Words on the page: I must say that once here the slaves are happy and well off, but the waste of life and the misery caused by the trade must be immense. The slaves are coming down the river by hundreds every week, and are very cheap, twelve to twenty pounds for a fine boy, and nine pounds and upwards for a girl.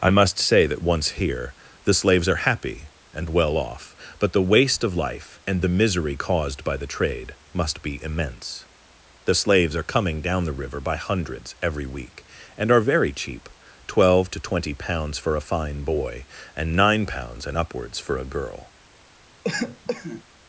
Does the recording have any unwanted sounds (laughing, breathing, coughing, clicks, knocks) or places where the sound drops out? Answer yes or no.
yes